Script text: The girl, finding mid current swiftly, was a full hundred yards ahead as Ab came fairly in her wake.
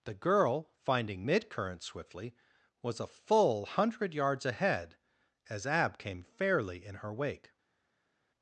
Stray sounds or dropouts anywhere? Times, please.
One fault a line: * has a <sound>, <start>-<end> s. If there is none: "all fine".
all fine